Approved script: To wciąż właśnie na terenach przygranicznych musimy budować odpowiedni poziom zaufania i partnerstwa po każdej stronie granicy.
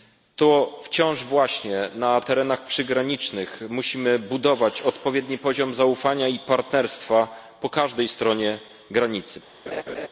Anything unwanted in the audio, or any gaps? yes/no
yes